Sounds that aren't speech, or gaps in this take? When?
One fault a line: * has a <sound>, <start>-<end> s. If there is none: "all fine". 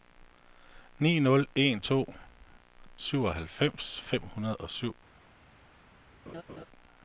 * has a laugh, 6.3-6.7 s